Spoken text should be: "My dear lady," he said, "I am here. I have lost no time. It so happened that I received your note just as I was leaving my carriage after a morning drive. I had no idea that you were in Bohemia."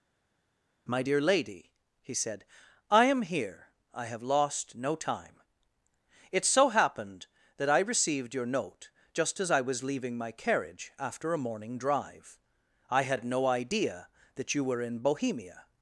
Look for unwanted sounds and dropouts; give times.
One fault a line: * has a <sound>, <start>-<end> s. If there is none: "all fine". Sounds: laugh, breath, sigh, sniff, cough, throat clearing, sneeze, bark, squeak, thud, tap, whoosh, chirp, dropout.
all fine